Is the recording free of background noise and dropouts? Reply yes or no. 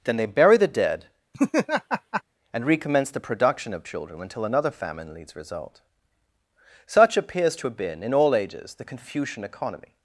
no